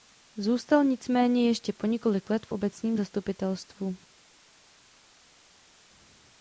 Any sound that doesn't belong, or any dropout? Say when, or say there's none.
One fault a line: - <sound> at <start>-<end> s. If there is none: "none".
none